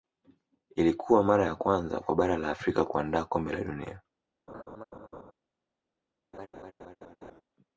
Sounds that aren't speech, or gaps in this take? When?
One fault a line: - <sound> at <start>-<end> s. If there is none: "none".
- laugh at 4.5-5.3 s
- laugh at 6.3-7.4 s